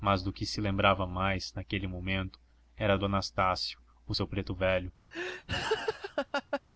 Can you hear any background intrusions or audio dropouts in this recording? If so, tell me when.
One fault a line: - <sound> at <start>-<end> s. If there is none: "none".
- laugh at 5.1-6.6 s